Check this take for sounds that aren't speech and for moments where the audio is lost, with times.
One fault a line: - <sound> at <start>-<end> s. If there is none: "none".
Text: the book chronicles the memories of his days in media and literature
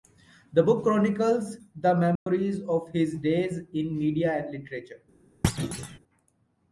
- dropout at 2.2-2.3 s
- thud at 5.4-6.0 s